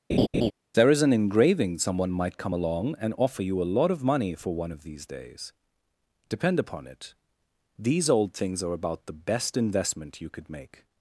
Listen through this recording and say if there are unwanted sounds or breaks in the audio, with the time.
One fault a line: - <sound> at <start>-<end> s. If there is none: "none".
- laugh at 0.1-0.5 s